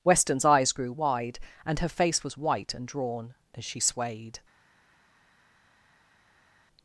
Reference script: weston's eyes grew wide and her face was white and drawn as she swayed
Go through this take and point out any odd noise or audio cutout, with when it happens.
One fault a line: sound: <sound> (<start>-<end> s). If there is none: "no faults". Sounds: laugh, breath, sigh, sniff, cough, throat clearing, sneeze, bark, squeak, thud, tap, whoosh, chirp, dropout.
no faults